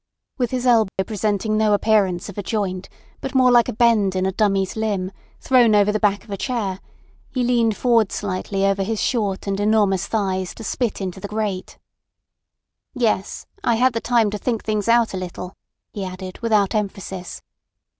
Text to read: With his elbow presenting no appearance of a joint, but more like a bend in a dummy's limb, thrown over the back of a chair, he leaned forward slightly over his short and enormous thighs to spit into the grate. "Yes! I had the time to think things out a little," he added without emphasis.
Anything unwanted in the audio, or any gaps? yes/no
yes